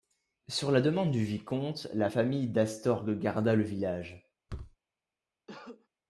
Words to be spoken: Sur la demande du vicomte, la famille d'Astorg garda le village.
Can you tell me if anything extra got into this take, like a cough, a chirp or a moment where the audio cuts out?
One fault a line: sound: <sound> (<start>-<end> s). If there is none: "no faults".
sound: thud (4.5-4.8 s)
sound: cough (5.5-5.9 s)